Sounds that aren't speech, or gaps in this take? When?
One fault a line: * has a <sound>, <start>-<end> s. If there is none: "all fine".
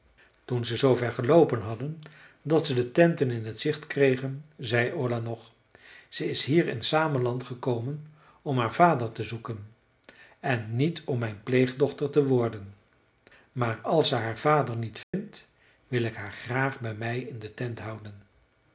* has a dropout, 15.0-15.1 s